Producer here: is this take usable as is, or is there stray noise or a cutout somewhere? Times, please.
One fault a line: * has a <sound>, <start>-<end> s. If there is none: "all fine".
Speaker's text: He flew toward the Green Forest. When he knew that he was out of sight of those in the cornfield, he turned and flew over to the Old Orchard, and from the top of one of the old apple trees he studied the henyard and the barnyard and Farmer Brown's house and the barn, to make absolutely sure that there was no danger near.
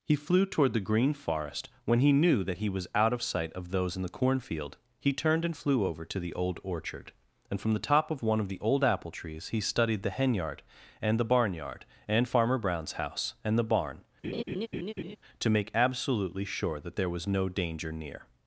* has a laugh, 14.2-15.2 s